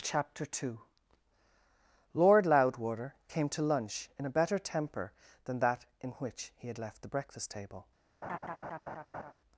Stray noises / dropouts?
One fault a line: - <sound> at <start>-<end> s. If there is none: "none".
- laugh at 8.2-9.3 s